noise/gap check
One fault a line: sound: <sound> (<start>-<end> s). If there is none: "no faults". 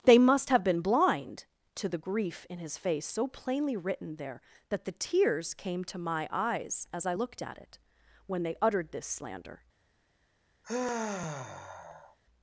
sound: sigh (10.6-12.2 s)